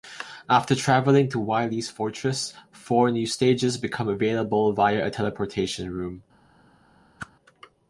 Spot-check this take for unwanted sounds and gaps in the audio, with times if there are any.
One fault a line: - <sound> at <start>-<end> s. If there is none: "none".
- whoosh at 7.2-7.3 s